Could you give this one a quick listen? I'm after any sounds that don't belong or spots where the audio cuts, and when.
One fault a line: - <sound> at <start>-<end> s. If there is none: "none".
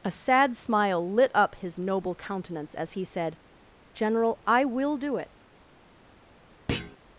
- thud at 6.7-7.0 s